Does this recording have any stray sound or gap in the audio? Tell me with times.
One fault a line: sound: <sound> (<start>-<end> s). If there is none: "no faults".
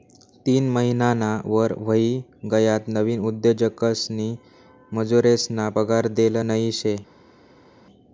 no faults